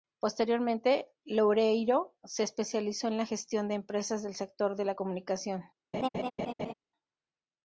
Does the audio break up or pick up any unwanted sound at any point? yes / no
yes